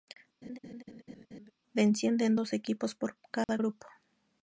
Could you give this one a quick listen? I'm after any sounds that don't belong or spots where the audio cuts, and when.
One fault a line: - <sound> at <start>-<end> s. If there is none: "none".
- laugh at 0.4-1.5 s
- dropout at 3.4-3.5 s